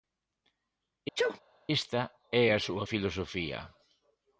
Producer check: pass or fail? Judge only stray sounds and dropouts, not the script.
fail